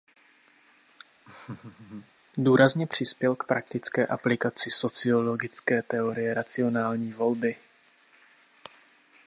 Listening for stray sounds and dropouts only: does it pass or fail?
fail